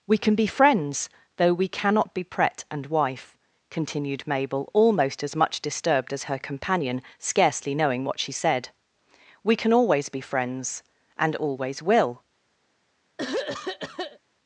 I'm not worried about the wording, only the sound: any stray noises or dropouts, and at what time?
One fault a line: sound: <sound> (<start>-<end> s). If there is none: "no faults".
sound: throat clearing (13.2-14.2 s)